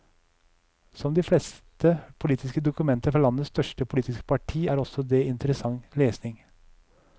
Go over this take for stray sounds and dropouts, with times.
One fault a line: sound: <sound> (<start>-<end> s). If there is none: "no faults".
no faults